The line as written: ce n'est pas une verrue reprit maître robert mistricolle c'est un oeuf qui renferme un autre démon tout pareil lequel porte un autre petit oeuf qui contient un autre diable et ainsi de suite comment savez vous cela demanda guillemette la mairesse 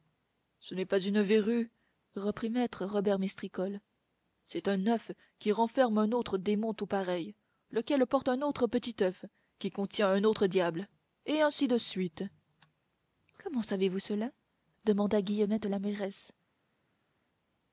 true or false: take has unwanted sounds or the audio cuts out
false